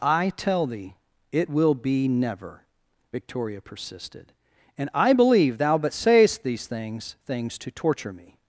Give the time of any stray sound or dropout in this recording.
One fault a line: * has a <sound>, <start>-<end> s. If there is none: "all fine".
all fine